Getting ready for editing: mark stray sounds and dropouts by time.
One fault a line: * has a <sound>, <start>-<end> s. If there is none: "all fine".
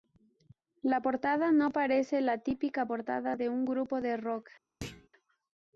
* has a thud, 4.8-5.1 s